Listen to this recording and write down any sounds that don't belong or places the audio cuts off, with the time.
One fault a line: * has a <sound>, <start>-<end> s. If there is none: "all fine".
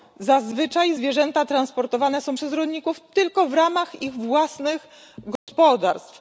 * has a dropout, 5.4-5.5 s